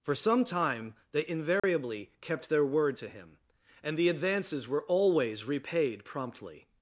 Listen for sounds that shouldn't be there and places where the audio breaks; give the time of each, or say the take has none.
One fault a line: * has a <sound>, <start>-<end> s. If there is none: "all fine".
* has a dropout, 1.6-1.6 s